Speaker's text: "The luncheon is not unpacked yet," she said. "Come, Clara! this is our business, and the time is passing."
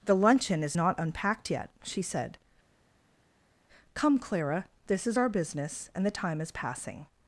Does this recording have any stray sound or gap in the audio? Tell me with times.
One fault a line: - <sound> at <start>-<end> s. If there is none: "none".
none